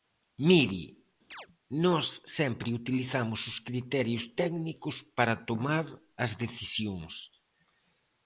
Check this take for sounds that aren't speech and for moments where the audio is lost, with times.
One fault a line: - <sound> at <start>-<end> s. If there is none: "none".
- chirp at 1.3-1.5 s